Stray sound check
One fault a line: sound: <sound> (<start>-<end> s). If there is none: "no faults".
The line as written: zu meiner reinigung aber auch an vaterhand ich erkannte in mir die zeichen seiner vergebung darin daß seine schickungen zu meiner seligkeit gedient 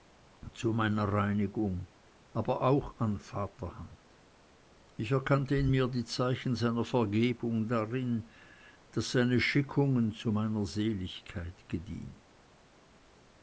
no faults